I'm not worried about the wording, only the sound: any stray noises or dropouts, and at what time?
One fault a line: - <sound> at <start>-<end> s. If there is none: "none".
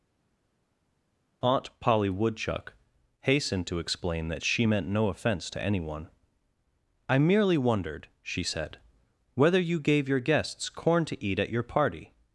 none